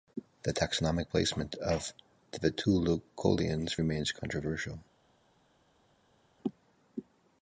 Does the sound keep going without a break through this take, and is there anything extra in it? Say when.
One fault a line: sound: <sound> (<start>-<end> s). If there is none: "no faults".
no faults